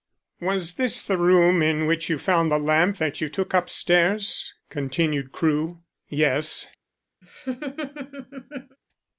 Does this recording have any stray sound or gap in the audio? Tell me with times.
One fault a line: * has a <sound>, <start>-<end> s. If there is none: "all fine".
* has a laugh, 7.2-8.8 s